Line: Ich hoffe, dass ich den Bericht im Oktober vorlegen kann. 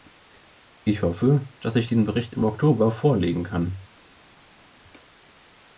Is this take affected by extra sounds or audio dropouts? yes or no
no